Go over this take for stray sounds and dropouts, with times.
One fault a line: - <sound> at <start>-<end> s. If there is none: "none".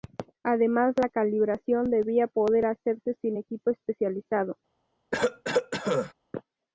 - cough at 5.1-6.1 s